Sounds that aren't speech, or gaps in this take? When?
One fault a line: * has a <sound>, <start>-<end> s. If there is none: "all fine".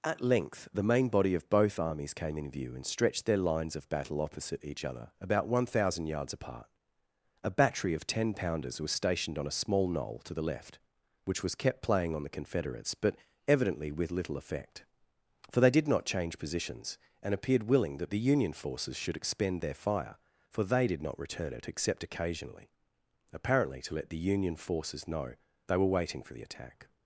all fine